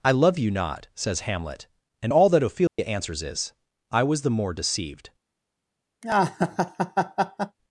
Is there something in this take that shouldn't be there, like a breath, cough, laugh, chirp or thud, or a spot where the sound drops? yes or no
yes